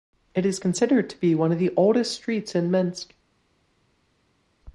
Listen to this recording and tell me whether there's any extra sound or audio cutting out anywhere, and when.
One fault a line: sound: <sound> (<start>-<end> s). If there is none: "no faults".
no faults